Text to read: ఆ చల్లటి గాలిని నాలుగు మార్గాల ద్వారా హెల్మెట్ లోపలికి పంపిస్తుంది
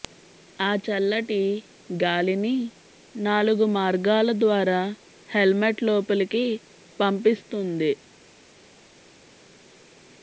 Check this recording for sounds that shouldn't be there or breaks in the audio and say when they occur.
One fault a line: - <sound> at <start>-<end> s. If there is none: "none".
none